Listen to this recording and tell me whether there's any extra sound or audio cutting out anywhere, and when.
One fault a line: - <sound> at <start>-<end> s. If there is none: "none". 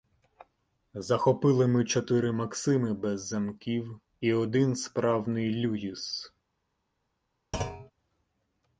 - thud at 7.5-7.9 s